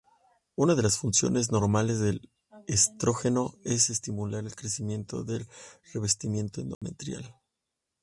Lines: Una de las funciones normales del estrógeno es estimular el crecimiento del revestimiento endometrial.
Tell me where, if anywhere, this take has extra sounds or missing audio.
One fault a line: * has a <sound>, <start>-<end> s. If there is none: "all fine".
* has a dropout, 6.7-6.8 s